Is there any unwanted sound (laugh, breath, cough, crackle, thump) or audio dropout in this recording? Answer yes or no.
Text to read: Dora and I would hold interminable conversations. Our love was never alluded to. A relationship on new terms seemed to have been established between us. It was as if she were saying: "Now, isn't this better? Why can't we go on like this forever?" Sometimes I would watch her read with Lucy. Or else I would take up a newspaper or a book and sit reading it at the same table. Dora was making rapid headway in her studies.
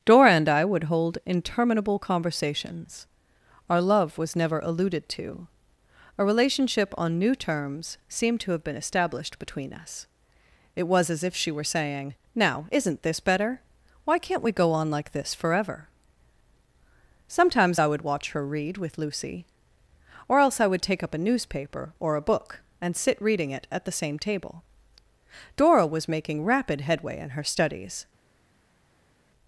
no